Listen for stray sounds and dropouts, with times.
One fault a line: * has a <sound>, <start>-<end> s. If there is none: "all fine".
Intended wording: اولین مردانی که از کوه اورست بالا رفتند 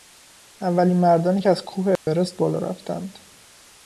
* has a dropout, 2.0-2.1 s